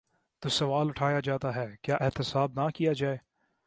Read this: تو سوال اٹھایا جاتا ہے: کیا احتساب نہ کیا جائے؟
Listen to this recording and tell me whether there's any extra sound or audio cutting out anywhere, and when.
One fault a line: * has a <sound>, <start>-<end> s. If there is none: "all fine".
all fine